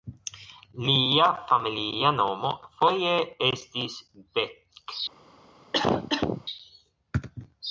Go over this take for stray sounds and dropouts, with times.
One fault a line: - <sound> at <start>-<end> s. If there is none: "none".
- cough at 5.7-6.5 s